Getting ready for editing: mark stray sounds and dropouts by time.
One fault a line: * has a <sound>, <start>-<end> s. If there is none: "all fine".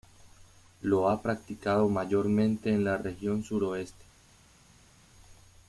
all fine